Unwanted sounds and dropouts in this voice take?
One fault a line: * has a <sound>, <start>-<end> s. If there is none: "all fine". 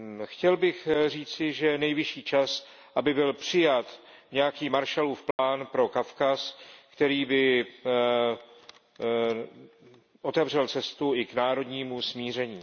* has a dropout, 5.3-5.4 s